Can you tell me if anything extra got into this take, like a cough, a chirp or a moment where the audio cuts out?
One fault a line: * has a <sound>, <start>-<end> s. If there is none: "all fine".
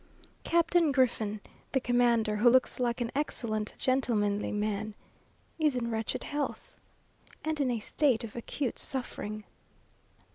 all fine